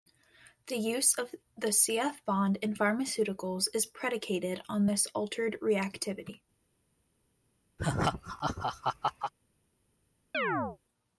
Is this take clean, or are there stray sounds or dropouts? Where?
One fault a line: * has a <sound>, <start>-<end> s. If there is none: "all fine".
* has a laugh, 7.8-9.3 s
* has a chirp, 10.3-10.8 s